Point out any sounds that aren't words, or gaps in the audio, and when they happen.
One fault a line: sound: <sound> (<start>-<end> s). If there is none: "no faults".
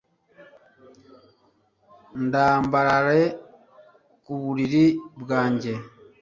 no faults